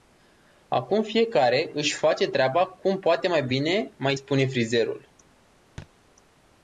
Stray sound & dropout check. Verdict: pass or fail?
fail